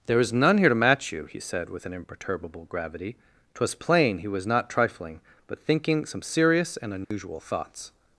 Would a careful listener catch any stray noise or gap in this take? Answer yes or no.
yes